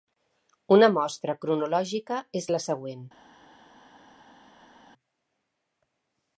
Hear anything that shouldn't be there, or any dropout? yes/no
no